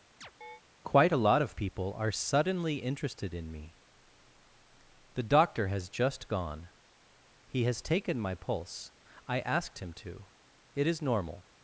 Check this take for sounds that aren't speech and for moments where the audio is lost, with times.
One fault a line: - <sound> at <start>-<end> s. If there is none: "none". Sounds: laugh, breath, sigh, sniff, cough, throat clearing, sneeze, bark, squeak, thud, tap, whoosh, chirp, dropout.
- chirp at 0.2-0.6 s